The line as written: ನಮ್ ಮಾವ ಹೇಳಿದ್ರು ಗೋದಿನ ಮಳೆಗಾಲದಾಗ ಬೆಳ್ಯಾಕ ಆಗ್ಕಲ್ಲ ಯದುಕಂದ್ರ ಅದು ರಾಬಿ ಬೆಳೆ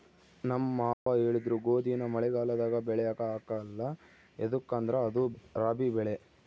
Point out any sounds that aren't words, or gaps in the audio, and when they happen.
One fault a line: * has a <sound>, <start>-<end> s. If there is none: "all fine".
* has a dropout, 0.9-1.1 s